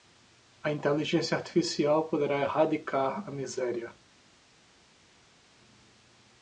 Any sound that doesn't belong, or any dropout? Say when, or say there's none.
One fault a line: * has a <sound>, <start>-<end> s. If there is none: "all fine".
all fine